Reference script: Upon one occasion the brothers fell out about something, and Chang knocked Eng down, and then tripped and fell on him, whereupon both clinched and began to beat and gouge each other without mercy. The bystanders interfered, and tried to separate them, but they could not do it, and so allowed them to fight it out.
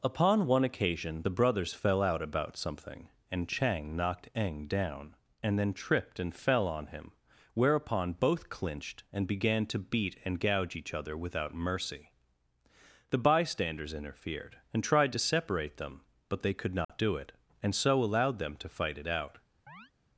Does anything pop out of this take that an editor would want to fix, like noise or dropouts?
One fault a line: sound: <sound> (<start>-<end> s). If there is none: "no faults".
sound: dropout (16.8-16.9 s)
sound: chirp (19.7-19.9 s)